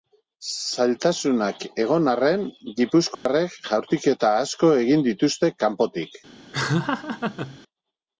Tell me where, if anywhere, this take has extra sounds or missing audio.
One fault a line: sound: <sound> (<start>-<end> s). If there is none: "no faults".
sound: dropout (3.1-3.3 s)
sound: laugh (6.5-7.6 s)